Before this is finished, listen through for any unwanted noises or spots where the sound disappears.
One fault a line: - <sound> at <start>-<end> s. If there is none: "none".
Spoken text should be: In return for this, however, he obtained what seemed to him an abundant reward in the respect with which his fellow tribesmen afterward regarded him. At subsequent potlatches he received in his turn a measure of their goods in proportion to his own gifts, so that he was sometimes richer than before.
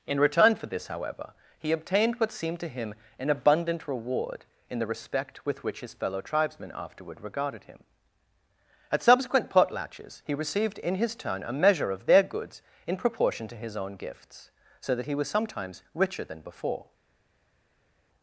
none